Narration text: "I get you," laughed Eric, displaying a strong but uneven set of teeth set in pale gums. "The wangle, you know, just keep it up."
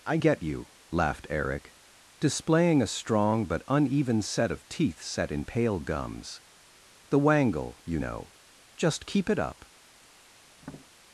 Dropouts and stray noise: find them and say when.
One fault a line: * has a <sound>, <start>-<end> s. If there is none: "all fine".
* has a tap, 10.6-10.9 s